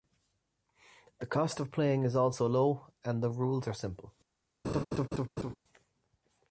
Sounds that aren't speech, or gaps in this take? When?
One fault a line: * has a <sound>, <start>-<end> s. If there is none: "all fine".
* has a laugh, 4.6-5.6 s